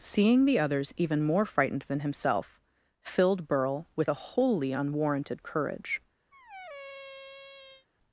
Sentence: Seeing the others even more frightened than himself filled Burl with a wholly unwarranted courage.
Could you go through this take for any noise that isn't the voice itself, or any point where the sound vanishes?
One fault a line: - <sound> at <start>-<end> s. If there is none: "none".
- squeak at 6.3-7.9 s